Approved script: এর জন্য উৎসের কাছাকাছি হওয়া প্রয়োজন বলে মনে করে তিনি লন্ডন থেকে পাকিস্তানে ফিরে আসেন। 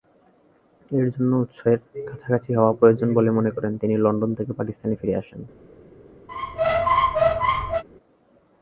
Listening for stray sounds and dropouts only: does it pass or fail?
fail